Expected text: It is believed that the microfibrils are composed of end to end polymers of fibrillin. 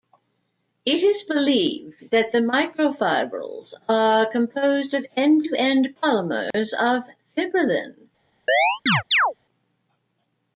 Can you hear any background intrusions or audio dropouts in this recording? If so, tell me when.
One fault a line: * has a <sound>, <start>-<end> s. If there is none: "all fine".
* has a dropout, 6.5-6.5 s
* has a chirp, 8.5-9.3 s